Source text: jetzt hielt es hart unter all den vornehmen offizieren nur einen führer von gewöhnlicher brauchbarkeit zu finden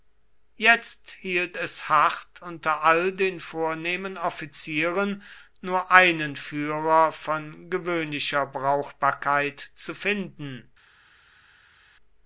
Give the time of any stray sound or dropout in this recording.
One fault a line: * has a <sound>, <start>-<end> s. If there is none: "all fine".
all fine